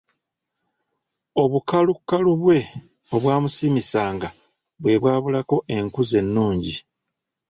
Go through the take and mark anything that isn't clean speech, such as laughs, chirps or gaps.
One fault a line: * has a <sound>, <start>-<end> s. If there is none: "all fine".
all fine